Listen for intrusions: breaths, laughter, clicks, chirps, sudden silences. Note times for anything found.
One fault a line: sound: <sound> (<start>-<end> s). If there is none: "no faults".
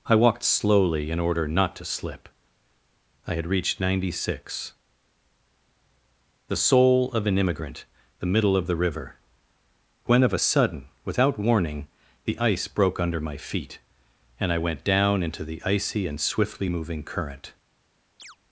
sound: chirp (18.2-18.4 s)